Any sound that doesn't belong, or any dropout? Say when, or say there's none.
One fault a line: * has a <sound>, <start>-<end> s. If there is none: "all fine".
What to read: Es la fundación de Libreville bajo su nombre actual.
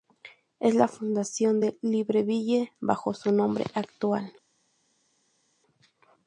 all fine